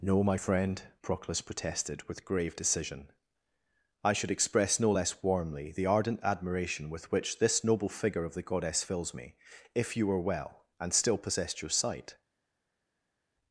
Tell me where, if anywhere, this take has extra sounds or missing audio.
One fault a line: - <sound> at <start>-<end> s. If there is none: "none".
none